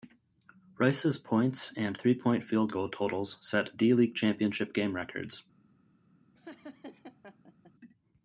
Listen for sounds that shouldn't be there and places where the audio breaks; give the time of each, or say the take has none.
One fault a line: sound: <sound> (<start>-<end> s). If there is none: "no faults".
sound: laugh (6.3-7.7 s)